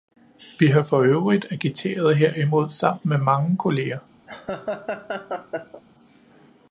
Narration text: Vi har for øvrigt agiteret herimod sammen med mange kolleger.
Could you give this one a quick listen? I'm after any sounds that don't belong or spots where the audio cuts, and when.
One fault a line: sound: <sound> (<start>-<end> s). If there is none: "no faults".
sound: laugh (4.3-5.8 s)